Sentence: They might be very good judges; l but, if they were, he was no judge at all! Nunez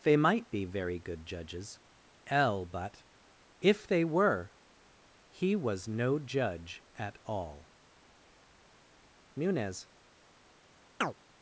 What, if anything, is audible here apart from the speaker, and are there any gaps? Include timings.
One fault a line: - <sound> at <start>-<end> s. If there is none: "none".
- chirp at 11.0-11.1 s